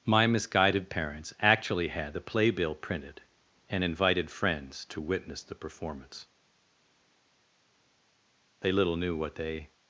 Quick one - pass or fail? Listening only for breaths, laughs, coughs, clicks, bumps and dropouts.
pass